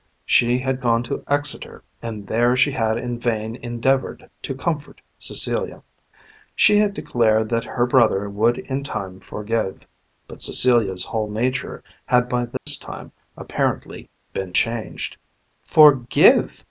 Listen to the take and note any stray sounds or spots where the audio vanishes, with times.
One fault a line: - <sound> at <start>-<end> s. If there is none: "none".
- dropout at 12.6-12.7 s